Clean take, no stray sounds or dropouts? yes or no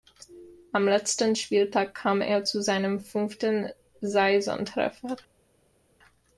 yes